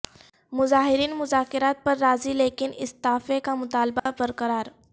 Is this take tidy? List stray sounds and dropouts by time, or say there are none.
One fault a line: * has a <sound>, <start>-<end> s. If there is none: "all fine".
* has a dropout, 4.0-4.1 s